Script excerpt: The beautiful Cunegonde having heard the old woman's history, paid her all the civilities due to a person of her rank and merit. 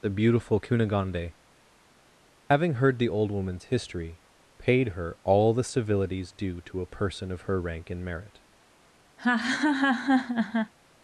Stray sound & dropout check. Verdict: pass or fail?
fail